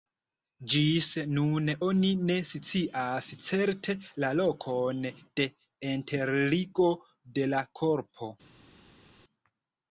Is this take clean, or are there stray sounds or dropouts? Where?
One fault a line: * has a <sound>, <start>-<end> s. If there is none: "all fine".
all fine